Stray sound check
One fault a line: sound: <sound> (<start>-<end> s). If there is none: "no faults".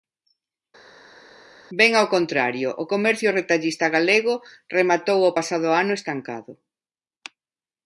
no faults